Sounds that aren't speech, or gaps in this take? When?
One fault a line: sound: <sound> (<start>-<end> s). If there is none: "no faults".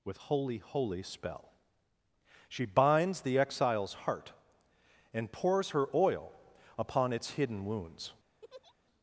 sound: laugh (8.4-8.7 s)